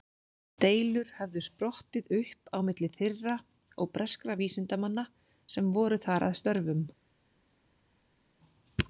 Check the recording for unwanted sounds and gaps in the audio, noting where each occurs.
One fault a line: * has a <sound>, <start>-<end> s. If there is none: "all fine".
all fine